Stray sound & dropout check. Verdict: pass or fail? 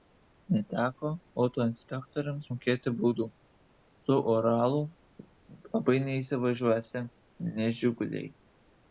pass